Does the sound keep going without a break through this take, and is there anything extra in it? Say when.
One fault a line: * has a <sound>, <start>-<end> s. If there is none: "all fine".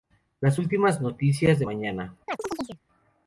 * has a chirp, 2.3-2.8 s